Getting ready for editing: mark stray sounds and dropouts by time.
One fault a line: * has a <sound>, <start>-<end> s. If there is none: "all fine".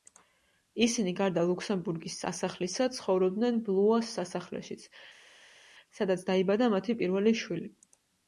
all fine